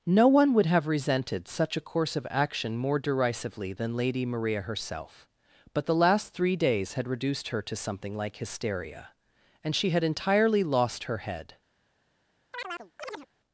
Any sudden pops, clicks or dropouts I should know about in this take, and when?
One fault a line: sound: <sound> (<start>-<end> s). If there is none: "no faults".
sound: chirp (12.5-13.3 s)